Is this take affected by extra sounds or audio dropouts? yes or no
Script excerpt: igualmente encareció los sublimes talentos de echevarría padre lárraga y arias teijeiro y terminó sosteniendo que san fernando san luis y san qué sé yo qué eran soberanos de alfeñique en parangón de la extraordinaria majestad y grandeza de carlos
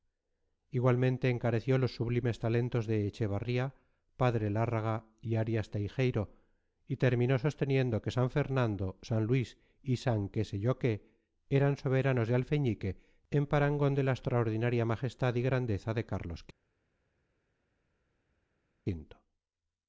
no